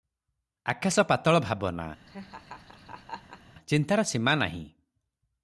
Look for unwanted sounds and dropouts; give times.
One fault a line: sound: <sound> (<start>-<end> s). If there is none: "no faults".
sound: laugh (2.1-3.5 s)